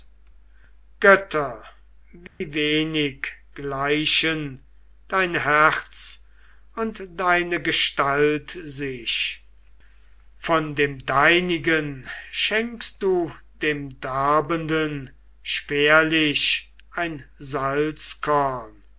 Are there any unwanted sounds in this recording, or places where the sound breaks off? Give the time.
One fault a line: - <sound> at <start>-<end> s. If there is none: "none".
- dropout at 2.3-2.4 s